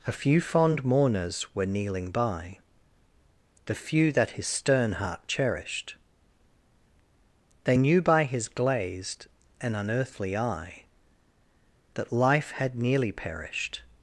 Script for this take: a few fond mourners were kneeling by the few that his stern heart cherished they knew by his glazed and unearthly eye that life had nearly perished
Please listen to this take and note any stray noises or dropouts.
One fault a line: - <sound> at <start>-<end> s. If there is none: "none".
none